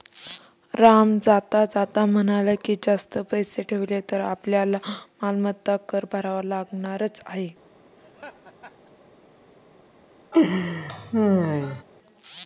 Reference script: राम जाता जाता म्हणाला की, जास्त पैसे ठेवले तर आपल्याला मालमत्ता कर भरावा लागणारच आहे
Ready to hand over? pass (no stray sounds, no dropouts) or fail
fail